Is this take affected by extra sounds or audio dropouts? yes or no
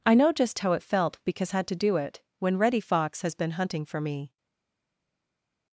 no